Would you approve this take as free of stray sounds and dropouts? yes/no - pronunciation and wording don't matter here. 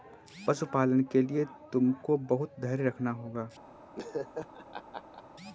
no